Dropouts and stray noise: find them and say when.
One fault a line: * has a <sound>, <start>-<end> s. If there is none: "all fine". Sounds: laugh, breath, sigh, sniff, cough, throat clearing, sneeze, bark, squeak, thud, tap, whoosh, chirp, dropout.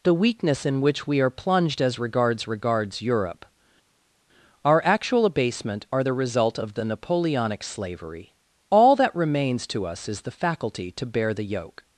all fine